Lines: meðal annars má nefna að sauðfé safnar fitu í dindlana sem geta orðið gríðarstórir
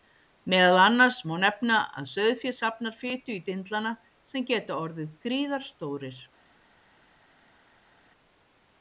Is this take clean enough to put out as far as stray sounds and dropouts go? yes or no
yes